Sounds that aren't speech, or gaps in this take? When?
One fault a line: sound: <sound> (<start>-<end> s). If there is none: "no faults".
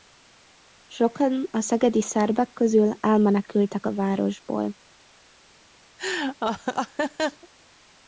sound: laugh (6.0-7.5 s)